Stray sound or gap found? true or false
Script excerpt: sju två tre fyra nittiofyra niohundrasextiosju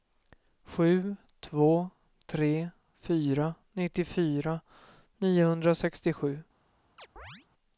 true